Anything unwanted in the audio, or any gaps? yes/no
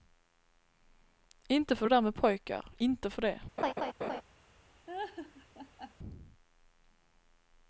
yes